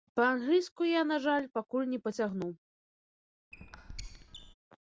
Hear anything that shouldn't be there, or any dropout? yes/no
yes